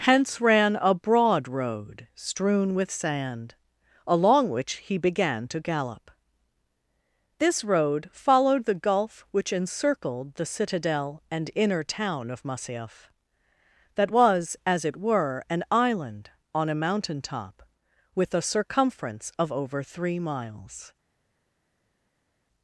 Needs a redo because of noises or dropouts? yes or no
no